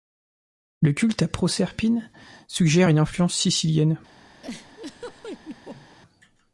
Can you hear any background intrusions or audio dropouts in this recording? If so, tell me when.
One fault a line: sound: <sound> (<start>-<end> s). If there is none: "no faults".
sound: laugh (4.4-6.0 s)